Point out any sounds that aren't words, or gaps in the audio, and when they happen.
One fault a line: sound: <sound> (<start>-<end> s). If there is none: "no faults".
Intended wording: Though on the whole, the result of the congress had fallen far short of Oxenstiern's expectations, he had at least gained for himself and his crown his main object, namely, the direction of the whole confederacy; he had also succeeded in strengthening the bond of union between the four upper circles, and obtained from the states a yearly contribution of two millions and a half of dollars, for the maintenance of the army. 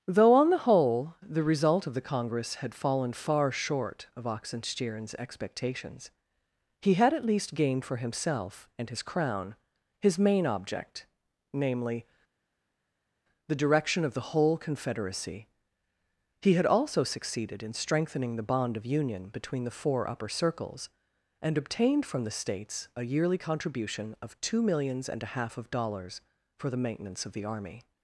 no faults